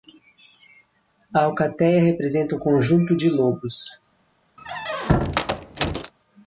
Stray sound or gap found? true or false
true